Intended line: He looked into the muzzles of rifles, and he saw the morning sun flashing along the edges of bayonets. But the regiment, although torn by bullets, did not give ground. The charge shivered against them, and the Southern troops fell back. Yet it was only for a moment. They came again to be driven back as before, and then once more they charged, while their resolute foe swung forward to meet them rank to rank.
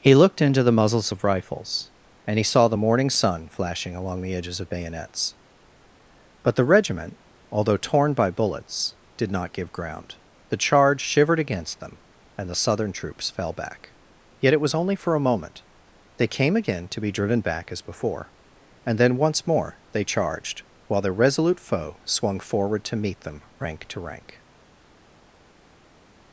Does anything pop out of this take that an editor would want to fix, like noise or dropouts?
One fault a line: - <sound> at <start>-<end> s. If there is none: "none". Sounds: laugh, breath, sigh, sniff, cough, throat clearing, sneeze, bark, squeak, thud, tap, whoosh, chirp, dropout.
none